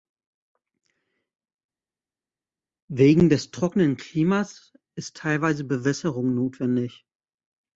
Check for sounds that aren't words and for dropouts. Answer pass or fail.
pass